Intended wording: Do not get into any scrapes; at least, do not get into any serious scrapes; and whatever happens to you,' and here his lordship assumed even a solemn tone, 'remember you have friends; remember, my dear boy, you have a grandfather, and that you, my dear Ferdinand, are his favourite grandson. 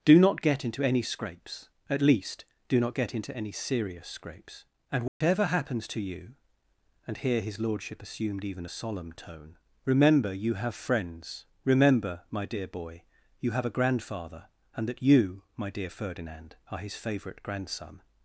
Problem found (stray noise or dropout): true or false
true